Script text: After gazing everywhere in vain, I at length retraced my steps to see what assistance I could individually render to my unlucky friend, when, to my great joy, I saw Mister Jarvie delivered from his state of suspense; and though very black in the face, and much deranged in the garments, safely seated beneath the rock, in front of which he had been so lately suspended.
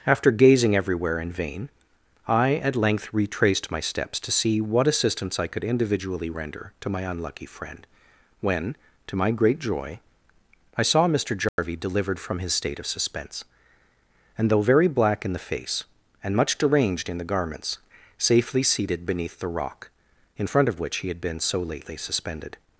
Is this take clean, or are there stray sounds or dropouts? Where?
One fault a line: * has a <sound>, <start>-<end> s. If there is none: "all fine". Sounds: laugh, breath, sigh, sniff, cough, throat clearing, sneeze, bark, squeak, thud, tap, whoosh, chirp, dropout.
* has a dropout, 11.5-11.6 s